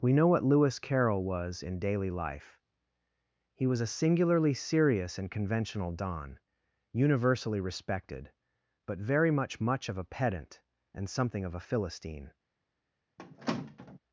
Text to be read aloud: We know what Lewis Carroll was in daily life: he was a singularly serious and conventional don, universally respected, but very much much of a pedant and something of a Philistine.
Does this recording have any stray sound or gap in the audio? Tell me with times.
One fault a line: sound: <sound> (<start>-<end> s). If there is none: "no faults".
sound: squeak (13.2-14.0 s)